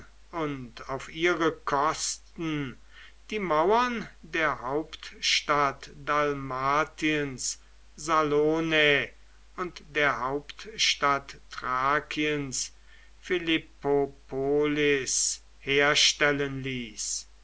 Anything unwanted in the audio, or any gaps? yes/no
no